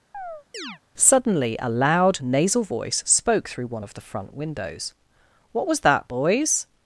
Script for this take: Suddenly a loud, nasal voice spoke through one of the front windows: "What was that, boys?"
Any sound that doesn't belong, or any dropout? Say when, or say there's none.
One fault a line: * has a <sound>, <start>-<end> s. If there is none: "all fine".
* has a chirp, 0.1-0.8 s